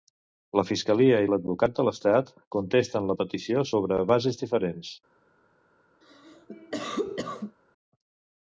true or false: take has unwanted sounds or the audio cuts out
true